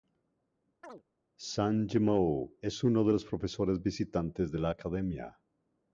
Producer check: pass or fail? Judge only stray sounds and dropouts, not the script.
fail